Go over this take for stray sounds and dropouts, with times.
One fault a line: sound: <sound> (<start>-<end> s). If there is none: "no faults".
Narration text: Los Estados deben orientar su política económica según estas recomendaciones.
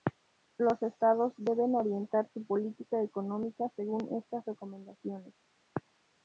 no faults